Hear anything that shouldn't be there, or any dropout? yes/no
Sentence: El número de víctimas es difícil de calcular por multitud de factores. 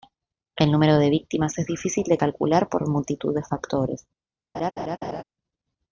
yes